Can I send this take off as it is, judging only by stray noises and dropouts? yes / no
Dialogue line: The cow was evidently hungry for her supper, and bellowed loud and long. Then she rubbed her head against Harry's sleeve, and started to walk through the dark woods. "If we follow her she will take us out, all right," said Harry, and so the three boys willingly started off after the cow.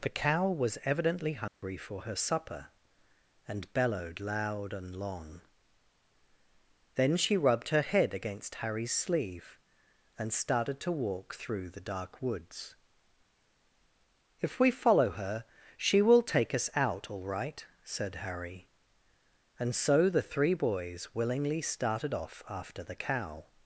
no